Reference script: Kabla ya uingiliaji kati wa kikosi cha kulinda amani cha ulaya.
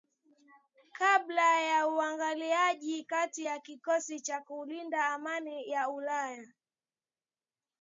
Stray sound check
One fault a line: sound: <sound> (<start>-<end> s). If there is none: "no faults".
no faults